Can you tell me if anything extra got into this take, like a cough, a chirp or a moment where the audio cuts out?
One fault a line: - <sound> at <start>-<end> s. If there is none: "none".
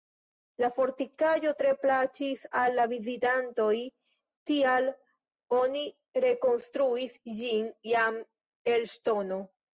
none